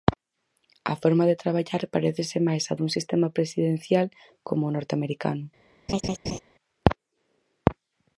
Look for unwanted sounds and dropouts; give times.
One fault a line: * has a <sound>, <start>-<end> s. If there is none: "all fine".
* has a laugh, 5.9-6.4 s